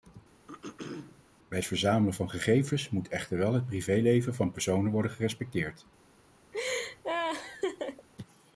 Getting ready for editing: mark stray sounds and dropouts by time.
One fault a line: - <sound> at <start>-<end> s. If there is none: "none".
- throat clearing at 0.5-1.2 s
- laugh at 6.5-8.1 s